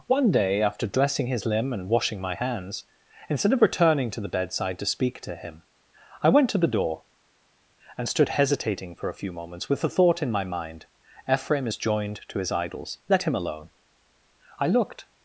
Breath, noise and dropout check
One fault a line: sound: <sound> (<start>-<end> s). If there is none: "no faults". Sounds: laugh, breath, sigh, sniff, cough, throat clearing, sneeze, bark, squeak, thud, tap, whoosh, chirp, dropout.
no faults